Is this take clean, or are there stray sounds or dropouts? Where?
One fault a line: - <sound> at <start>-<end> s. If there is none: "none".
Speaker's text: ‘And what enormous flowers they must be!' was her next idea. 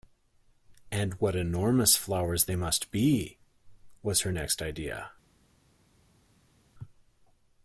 none